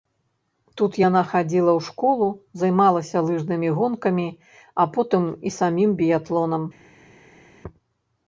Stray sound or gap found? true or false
false